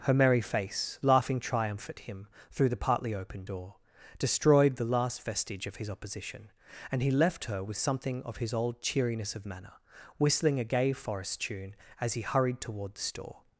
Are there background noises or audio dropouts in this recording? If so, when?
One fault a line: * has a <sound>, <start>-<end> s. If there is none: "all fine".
all fine